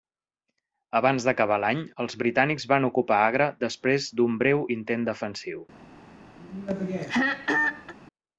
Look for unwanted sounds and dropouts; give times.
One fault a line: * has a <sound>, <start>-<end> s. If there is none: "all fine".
* has a throat clearing, 6.4-7.9 s